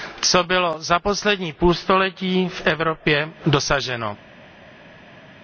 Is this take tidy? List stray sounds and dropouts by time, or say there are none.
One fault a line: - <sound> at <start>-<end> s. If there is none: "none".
none